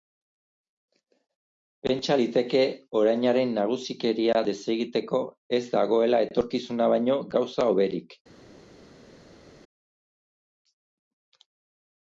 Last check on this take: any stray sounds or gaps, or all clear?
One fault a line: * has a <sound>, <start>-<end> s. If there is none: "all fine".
all fine